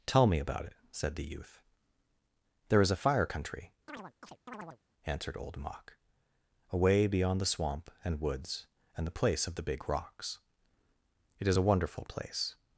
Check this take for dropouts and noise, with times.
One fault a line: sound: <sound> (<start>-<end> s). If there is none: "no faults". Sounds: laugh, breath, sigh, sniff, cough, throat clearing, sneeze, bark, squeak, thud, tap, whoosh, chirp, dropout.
sound: chirp (3.9-4.8 s)